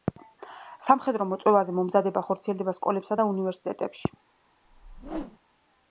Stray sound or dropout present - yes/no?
yes